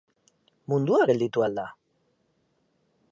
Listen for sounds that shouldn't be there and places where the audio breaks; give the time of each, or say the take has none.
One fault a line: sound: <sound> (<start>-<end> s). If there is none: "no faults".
no faults